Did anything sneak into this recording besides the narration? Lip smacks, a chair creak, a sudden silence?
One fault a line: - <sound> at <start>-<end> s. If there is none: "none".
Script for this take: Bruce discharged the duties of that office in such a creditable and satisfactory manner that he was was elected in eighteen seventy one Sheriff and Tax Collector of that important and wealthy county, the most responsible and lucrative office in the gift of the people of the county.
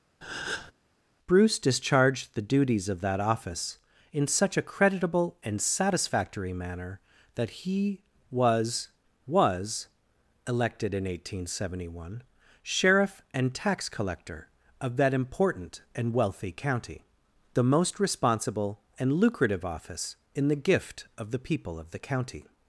- breath at 0.2-0.7 s